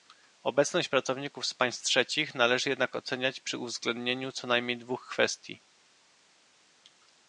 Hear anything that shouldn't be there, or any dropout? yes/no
no